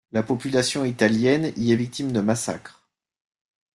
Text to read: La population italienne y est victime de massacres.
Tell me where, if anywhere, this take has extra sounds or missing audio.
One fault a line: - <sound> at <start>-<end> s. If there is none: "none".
none